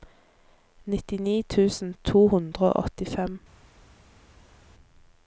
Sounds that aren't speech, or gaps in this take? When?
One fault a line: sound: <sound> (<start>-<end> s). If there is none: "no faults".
no faults